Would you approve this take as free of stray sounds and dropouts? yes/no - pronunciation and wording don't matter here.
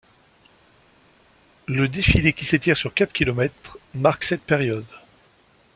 yes